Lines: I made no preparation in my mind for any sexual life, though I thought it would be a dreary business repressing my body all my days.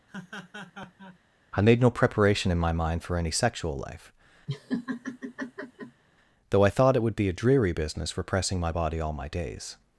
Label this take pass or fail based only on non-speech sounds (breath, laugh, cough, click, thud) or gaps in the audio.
fail